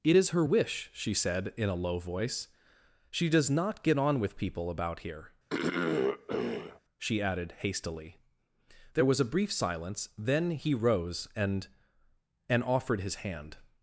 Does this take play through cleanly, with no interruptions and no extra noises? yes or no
no